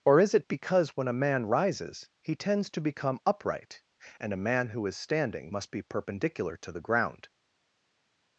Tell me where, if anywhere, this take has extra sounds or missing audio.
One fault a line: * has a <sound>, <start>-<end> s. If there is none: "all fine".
all fine